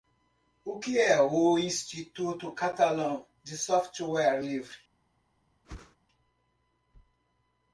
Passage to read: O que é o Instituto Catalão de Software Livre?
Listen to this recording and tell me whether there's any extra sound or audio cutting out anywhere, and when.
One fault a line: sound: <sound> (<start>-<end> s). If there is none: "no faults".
sound: whoosh (5.6-6.0 s)